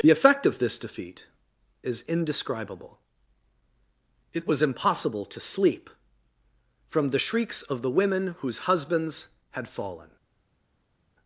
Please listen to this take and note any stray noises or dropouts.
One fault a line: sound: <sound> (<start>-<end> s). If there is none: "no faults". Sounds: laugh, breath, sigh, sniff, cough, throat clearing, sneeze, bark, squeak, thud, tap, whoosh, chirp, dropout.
no faults